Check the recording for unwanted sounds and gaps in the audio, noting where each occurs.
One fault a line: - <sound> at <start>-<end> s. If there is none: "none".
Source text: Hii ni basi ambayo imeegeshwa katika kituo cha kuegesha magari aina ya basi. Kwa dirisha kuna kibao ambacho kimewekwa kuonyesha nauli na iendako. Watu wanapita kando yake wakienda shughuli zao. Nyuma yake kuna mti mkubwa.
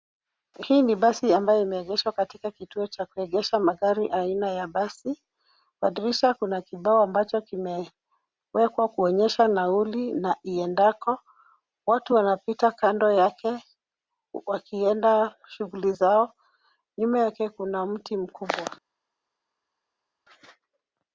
none